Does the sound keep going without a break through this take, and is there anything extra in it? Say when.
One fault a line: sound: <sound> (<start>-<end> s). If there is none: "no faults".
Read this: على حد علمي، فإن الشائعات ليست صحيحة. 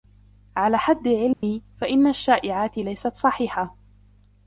sound: dropout (1.3-1.4 s)